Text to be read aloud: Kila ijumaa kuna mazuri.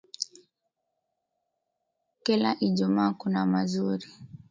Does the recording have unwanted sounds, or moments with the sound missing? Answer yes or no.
no